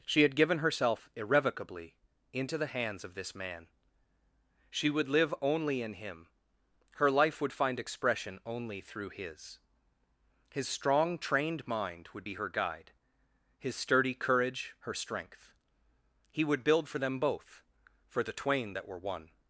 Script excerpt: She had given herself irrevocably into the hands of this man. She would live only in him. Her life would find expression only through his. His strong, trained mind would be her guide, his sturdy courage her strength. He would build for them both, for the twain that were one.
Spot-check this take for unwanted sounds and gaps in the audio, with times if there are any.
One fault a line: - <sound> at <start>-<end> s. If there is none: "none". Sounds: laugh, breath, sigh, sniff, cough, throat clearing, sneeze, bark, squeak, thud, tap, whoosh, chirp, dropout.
none